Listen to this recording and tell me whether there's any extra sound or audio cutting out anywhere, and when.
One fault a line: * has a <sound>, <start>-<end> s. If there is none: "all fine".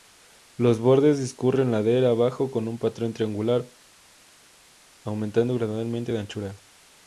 all fine